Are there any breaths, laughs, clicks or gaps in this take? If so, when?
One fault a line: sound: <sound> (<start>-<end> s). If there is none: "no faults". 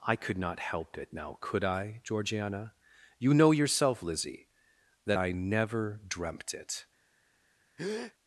sound: breath (7.8-8.1 s)